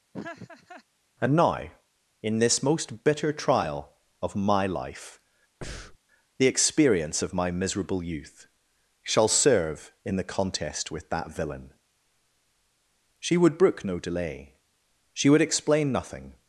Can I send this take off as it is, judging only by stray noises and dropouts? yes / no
no